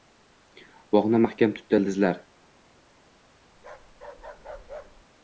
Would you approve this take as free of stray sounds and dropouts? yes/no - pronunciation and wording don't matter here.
no